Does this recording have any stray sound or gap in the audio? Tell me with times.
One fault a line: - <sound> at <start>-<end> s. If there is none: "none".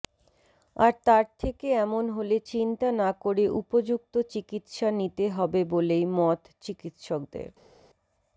none